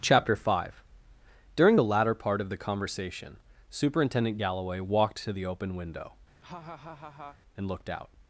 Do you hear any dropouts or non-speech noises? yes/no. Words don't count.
yes